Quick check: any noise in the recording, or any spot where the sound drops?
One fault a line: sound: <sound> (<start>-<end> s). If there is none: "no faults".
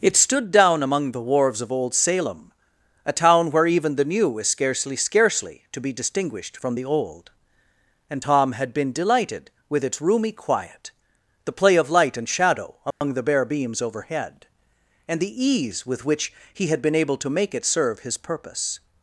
sound: dropout (12.9-13.0 s)